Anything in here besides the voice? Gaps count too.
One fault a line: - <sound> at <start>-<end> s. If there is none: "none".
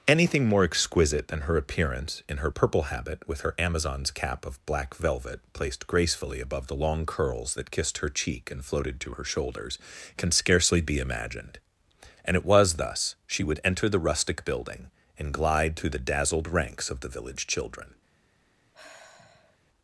- sigh at 18.7-19.6 s